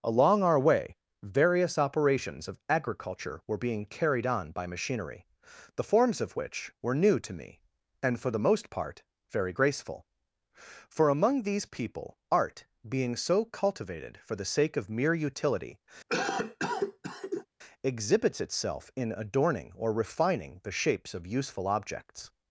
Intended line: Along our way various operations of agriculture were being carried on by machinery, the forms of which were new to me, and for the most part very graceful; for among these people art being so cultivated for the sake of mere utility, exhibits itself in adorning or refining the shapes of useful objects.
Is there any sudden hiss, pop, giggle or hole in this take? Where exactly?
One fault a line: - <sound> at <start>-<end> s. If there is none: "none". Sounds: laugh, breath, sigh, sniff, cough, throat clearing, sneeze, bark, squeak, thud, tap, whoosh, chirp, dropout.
- cough at 16.1-17.5 s